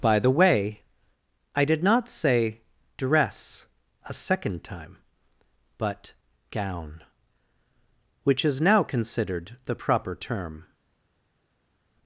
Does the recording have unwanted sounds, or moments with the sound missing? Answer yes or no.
no